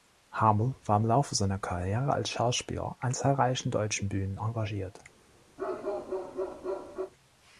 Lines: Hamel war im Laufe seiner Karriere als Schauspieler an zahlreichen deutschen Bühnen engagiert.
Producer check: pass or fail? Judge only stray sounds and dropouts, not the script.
fail